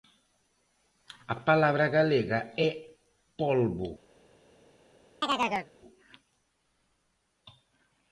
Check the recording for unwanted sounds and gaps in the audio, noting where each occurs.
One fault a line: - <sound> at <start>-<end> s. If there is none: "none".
- chirp at 5.2-5.7 s